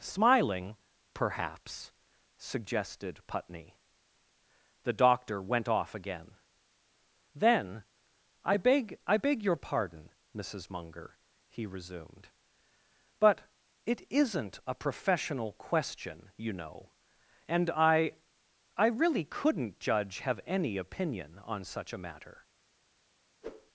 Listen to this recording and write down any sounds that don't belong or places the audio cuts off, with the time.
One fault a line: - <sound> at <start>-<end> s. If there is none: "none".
- whoosh at 23.4-23.7 s